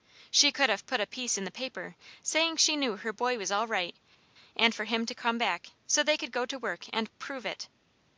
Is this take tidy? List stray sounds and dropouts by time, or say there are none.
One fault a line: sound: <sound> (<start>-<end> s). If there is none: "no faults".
no faults